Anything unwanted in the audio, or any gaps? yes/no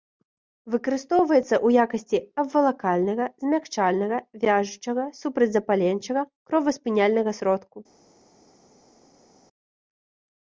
no